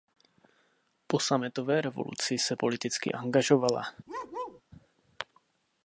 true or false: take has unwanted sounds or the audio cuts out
true